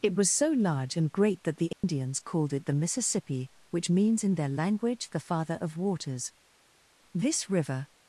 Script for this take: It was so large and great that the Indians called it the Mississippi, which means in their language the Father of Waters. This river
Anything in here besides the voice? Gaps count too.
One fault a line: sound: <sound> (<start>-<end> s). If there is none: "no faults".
sound: dropout (1.7-1.8 s)